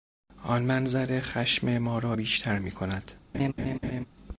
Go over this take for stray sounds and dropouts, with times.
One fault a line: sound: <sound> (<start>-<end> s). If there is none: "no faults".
sound: laugh (3.3-4.1 s)